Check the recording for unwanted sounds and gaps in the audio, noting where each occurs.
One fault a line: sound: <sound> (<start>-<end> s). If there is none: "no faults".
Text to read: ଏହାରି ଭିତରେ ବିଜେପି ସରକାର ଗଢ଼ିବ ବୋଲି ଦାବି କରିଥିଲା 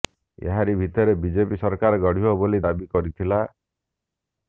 no faults